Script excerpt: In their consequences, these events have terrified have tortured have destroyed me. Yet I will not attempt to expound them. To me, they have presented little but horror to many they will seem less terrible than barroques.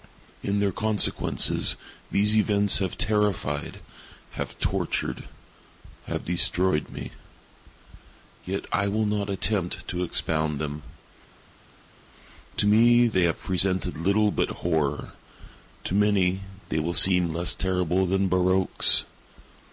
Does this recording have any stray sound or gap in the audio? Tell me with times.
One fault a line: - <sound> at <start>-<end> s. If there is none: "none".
none